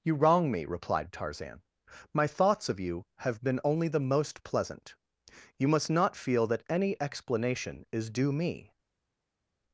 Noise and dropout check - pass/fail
pass